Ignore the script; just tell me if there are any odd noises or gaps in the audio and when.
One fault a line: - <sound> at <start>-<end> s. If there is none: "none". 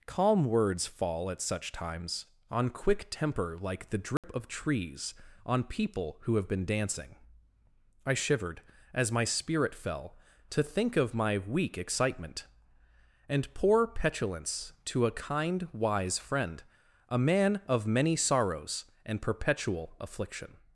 - dropout at 4.2-4.2 s